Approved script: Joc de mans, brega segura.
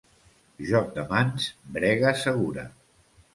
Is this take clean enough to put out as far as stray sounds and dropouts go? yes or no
yes